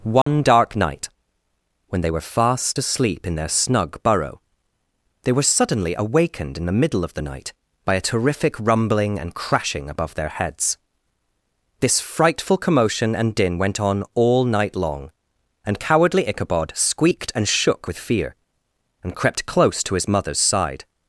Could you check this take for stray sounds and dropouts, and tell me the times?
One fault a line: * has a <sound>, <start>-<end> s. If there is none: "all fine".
* has a dropout, 0.2-0.3 s